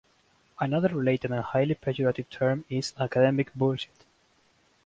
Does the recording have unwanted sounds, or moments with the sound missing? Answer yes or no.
no